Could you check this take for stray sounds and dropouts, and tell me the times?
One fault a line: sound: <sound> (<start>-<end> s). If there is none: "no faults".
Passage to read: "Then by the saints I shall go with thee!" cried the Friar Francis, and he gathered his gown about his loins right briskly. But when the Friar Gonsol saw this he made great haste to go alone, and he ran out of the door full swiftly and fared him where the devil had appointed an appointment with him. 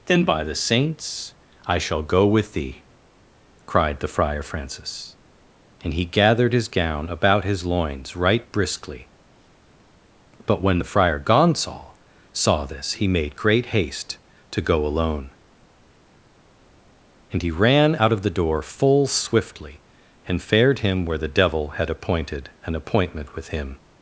no faults